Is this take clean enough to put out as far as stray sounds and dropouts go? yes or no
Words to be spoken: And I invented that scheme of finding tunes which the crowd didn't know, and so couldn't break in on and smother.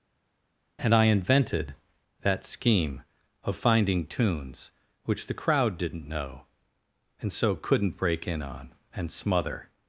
yes